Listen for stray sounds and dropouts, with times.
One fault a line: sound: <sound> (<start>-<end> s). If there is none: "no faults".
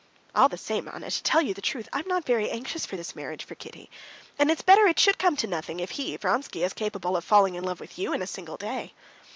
no faults